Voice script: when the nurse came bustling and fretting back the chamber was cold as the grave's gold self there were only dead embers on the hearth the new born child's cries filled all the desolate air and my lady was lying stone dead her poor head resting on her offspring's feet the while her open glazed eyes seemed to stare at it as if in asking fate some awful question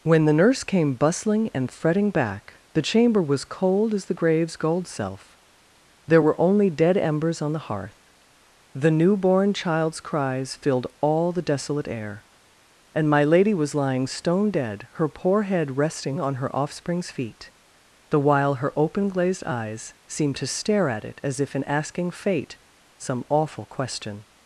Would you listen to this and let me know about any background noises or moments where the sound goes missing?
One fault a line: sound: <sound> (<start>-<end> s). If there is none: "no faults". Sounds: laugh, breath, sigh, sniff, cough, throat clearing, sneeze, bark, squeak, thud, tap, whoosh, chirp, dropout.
no faults